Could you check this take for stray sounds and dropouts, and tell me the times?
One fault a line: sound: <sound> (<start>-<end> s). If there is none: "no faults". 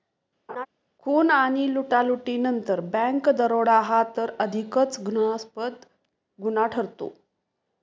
sound: laugh (0.5-0.7 s)